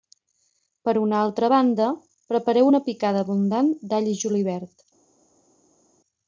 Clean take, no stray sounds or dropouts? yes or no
yes